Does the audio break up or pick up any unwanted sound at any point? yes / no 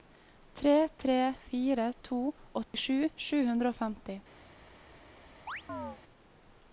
yes